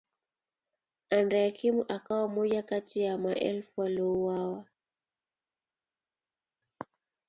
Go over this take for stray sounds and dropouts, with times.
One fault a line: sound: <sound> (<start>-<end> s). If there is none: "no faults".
no faults